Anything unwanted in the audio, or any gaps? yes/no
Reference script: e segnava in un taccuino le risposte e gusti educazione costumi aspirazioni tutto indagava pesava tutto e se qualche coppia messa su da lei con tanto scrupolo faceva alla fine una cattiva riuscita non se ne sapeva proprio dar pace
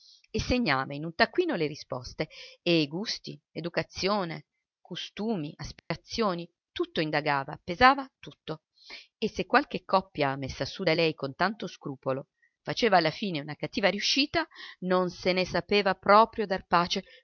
yes